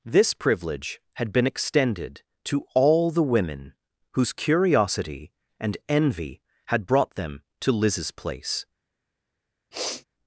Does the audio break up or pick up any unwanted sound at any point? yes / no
yes